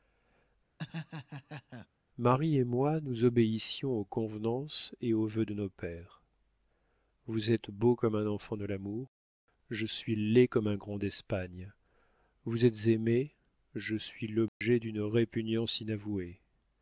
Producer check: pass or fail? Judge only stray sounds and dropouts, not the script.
fail